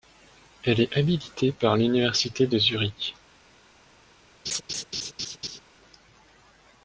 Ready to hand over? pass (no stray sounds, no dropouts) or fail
fail